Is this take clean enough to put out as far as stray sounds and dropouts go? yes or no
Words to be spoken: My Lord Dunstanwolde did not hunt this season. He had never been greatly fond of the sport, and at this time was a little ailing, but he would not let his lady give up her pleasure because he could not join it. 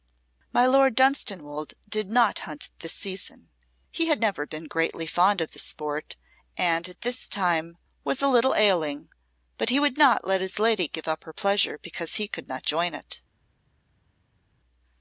yes